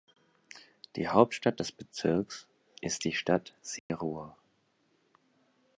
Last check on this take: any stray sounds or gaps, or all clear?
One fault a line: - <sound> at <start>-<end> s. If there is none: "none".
- dropout at 3.8-3.9 s